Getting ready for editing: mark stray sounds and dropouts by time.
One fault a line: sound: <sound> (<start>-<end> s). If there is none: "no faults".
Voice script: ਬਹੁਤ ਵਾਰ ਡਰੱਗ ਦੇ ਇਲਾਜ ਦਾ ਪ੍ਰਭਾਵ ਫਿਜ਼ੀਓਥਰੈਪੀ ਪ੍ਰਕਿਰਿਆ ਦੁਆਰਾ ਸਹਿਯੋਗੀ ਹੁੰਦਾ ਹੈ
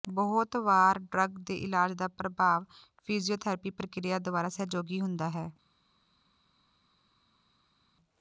no faults